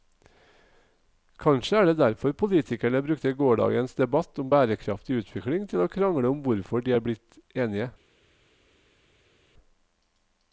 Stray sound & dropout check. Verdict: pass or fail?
pass